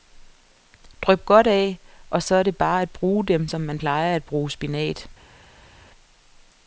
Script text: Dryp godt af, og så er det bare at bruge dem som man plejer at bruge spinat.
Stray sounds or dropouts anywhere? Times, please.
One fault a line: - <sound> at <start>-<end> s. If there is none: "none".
none